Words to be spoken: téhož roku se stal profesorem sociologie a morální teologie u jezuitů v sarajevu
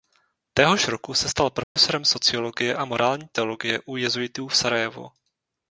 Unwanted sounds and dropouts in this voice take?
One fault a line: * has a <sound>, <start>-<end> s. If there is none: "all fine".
* has a dropout, 1.6-1.8 s